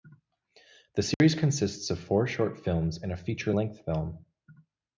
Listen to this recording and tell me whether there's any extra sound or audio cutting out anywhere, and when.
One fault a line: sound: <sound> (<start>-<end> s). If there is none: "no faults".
sound: dropout (1.1-1.2 s)